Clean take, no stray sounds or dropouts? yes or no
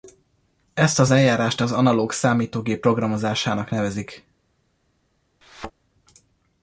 no